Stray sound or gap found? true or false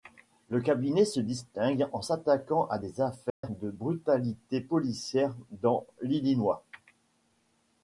true